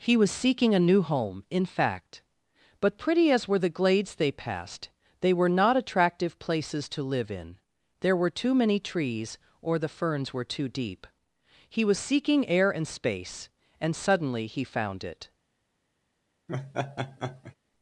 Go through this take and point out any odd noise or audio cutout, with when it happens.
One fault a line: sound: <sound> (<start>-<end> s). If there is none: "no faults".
sound: laugh (16.5-17.6 s)